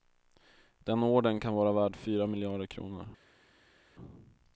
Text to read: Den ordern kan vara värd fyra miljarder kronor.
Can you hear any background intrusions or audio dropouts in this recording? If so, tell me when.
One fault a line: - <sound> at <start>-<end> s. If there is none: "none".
none